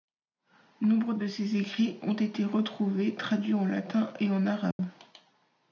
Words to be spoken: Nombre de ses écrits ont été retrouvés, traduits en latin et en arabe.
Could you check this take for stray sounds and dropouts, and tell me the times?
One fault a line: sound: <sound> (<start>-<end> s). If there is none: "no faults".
sound: dropout (4.7-4.8 s)